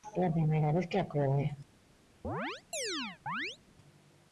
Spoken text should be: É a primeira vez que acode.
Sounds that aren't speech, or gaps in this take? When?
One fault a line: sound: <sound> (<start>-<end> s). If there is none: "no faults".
sound: chirp (2.2-3.6 s)